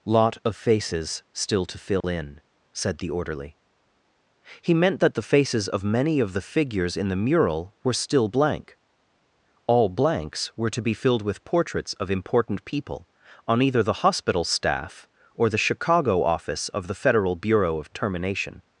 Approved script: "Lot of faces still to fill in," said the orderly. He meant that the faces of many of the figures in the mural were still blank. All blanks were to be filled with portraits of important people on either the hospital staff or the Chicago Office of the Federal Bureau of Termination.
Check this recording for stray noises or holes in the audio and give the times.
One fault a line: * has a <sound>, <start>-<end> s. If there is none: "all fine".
* has a dropout, 2.0-2.0 s